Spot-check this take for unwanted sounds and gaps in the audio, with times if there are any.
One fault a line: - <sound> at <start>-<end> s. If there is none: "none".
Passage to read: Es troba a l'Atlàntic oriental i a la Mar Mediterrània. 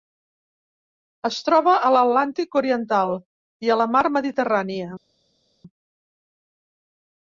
none